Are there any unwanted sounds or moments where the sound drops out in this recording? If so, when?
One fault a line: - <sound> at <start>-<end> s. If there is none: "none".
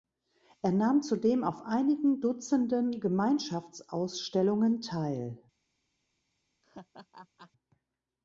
- laugh at 6.6-7.5 s